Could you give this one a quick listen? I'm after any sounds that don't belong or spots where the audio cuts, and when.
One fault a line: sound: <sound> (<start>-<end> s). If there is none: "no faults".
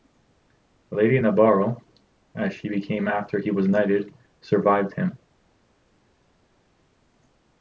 no faults